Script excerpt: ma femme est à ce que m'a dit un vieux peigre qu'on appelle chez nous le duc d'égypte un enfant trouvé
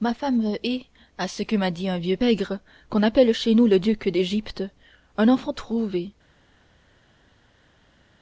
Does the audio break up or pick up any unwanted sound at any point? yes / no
no